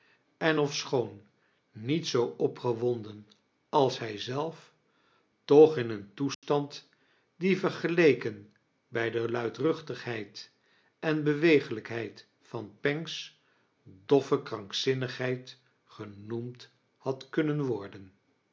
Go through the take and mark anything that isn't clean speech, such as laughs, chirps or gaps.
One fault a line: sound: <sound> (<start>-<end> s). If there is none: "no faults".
sound: dropout (6.3-6.4 s)